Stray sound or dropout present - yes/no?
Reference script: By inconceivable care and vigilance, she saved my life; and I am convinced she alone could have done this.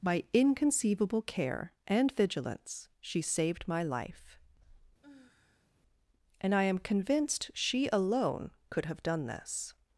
yes